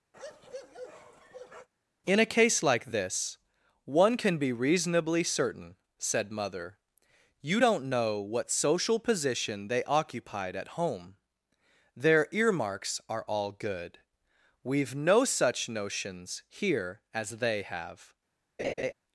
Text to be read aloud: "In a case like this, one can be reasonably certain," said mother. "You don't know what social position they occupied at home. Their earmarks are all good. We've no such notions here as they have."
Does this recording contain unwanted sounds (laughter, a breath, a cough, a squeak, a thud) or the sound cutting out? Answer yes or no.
yes